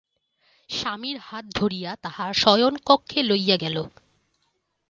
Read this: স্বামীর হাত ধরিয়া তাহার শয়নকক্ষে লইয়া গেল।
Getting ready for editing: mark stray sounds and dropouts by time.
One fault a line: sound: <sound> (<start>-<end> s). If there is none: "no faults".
no faults